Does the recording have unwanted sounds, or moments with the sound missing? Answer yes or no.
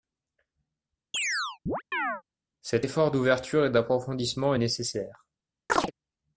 yes